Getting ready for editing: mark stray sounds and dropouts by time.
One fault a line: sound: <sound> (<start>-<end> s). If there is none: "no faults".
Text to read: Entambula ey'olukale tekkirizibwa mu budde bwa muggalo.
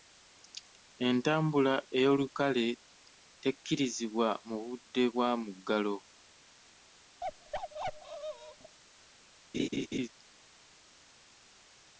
sound: bark (7.2-8.8 s)
sound: laugh (9.5-10.1 s)